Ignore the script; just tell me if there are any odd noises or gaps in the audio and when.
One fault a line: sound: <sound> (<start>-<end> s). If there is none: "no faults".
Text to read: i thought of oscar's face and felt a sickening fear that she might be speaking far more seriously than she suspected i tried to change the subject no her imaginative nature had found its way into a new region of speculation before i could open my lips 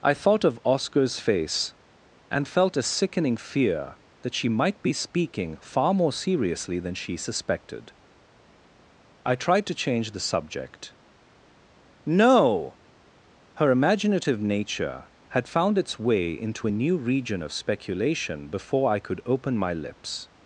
no faults